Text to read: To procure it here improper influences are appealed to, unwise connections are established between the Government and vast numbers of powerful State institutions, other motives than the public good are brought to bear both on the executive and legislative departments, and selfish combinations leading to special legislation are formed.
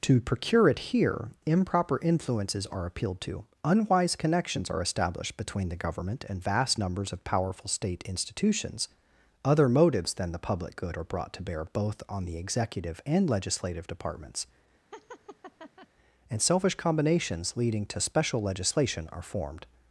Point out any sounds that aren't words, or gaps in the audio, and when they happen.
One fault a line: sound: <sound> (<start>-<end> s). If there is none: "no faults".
sound: laugh (14.9-15.9 s)